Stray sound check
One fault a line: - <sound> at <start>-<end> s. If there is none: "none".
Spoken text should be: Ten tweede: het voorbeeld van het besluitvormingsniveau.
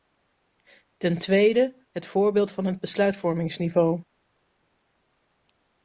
none